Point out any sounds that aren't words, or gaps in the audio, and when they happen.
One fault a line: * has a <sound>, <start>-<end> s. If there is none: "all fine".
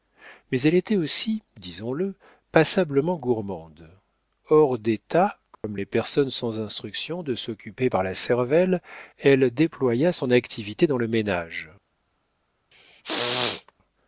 * has a dropout, 5.5-5.6 s
* has a throat clearing, 12.7-13.7 s